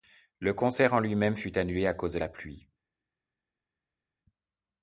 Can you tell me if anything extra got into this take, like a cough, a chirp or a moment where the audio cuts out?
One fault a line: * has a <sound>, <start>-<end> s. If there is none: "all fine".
all fine